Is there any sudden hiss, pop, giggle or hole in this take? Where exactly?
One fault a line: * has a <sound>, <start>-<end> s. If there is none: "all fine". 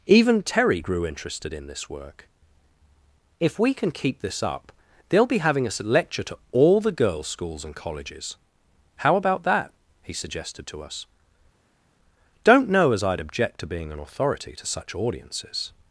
all fine